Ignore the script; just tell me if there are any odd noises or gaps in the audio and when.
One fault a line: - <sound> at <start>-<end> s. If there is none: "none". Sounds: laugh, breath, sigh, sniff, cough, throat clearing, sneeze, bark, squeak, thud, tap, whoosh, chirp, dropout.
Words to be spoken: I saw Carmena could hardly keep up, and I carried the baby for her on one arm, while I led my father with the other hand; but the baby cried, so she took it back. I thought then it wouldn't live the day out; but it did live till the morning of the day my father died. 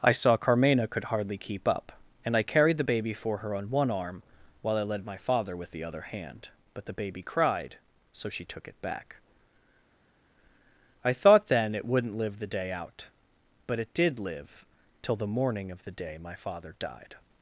none